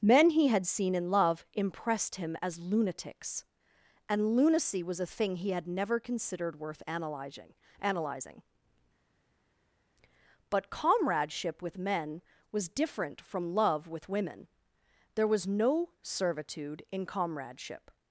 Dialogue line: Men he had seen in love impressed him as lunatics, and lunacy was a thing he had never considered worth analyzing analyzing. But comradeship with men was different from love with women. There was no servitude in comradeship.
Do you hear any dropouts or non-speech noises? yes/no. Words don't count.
no